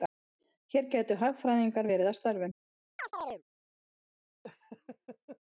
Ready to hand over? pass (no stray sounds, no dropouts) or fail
fail